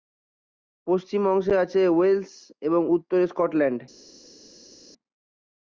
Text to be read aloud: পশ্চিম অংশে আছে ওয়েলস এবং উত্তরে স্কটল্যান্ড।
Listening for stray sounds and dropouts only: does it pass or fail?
pass